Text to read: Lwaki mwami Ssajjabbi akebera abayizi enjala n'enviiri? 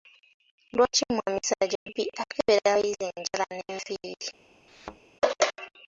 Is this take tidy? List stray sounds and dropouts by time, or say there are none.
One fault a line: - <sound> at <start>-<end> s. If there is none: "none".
- dropout at 1.8-1.9 s
- thud at 4.7-5.0 s